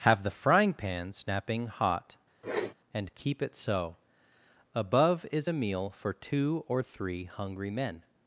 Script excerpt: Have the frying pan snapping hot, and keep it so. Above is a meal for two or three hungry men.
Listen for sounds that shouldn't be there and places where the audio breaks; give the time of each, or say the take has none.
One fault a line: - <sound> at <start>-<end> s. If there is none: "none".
- sniff at 2.4-2.7 s